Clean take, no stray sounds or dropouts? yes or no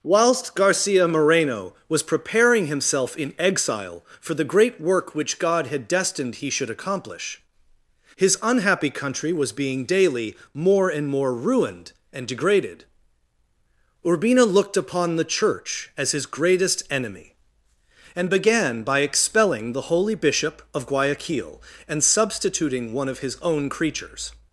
yes